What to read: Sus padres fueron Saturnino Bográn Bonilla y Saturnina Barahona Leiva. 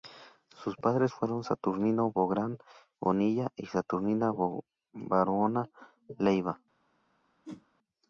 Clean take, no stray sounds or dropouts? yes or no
no